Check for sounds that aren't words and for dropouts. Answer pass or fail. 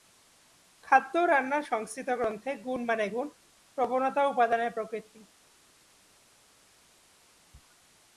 pass